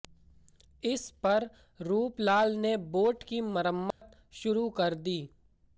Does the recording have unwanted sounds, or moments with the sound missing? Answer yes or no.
yes